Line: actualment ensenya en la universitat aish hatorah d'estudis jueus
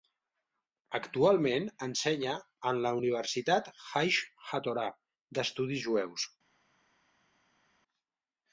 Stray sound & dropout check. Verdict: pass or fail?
pass